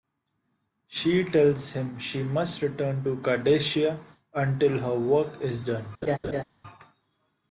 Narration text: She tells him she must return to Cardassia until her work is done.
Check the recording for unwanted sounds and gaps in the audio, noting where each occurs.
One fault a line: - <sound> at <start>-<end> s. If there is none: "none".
- laugh at 6.0-6.4 s